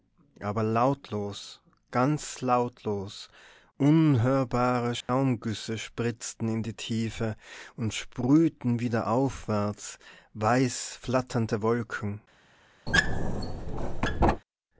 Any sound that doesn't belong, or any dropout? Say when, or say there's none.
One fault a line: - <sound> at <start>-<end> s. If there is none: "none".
- dropout at 5.0-5.1 s
- squeak at 12.9-14.4 s